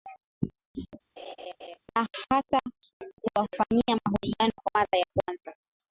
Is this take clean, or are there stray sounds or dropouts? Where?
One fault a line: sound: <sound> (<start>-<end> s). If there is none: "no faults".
sound: laugh (1.2-1.8 s)